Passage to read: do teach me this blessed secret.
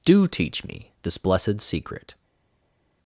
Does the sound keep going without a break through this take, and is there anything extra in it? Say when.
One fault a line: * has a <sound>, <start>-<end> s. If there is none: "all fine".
all fine